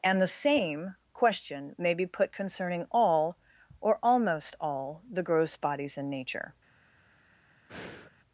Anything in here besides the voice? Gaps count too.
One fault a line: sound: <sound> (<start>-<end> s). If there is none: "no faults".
sound: breath (7.7-8.1 s)